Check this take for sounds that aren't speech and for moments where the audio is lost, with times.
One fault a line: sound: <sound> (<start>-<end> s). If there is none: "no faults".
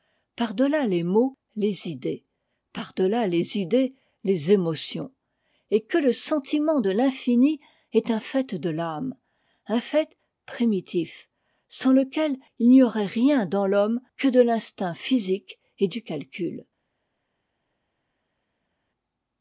no faults